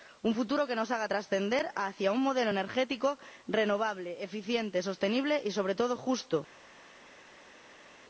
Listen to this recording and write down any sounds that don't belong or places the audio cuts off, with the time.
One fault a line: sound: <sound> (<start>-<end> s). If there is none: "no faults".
no faults